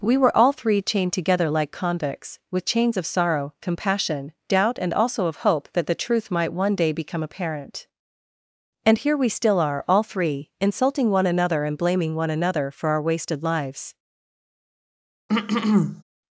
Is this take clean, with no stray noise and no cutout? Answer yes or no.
no